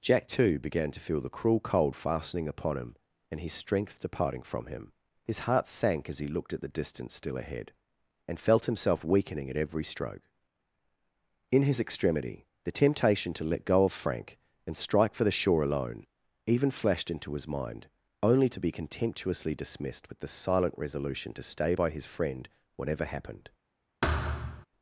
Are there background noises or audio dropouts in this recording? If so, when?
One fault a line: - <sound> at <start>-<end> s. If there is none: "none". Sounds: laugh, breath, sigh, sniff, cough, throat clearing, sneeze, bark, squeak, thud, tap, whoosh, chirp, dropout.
- thud at 24.0-24.7 s